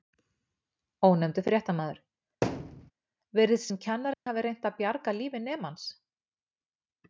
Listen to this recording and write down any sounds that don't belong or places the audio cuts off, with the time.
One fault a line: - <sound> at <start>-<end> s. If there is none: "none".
- thud at 2.4-2.9 s
- dropout at 4.1-4.3 s